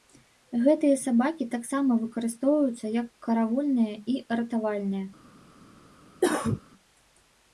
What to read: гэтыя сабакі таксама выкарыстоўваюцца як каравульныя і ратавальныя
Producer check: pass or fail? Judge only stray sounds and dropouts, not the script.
fail